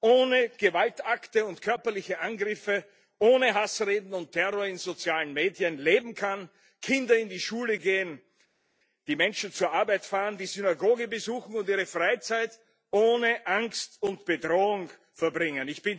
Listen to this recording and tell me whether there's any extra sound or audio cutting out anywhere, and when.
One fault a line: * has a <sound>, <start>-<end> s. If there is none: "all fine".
all fine